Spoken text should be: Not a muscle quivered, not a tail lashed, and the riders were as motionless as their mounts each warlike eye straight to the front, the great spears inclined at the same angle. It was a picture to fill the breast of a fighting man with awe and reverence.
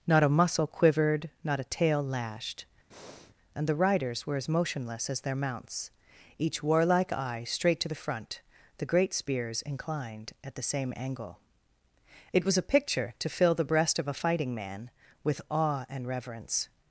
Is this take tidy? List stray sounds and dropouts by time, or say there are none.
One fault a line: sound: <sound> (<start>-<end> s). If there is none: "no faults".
sound: breath (2.9-3.3 s)